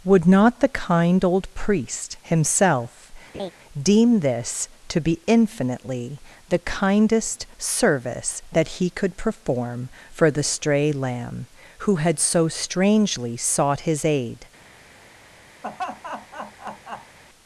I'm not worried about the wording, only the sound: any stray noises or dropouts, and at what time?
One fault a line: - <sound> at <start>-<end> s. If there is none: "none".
- laugh at 3.3-3.5 s
- laugh at 15.6-17.2 s